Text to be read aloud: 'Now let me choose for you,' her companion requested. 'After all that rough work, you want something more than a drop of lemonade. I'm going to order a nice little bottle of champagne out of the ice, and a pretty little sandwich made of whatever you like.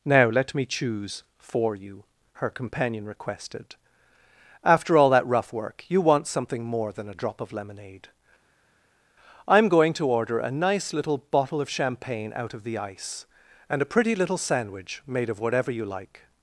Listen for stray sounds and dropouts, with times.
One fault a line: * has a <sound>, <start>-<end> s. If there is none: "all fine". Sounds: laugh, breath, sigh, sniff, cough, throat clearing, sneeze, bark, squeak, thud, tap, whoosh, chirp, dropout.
all fine